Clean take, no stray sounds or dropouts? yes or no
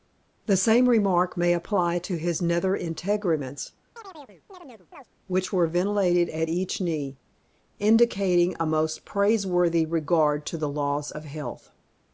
no